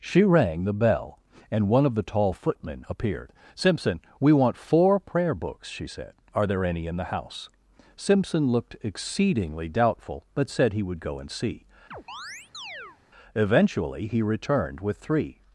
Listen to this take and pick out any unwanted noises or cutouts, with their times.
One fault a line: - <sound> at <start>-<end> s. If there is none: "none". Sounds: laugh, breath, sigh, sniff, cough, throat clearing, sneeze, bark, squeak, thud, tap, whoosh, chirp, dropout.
- chirp at 11.9-13.0 s